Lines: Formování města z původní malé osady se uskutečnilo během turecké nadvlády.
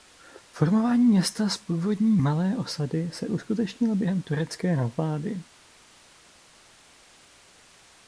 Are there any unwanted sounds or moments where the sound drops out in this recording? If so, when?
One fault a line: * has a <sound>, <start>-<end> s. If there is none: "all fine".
all fine